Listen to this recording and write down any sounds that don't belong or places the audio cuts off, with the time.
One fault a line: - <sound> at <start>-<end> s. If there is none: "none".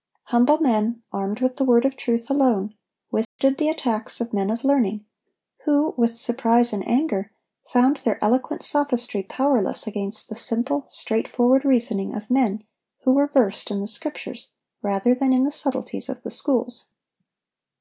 - dropout at 3.2-3.4 s